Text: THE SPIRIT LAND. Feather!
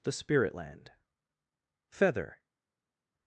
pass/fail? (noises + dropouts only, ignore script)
pass